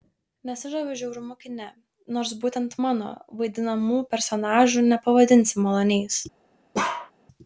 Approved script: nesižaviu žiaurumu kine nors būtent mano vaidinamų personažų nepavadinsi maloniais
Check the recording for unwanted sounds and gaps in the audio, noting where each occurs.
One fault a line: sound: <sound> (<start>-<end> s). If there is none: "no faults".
sound: bark (6.7-7.1 s)